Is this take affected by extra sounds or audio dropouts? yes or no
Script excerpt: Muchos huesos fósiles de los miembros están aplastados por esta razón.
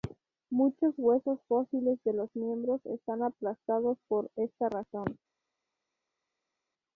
no